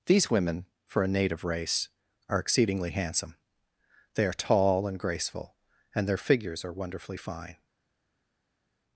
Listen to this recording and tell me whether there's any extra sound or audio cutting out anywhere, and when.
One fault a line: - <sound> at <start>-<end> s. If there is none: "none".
none